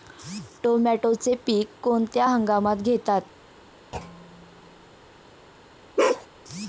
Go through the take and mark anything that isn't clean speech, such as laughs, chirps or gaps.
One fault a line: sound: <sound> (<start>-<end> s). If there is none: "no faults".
sound: thud (3.9-4.9 s)
sound: bark (6.0-6.3 s)